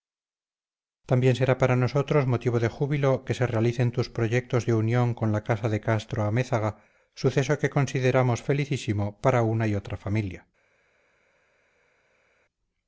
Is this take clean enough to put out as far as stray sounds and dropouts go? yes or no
yes